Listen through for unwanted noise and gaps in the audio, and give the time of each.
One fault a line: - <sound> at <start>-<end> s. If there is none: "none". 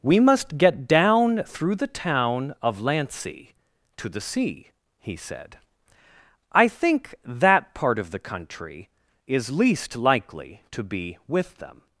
none